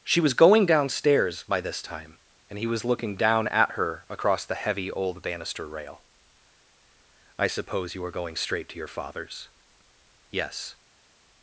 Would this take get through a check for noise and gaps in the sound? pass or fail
pass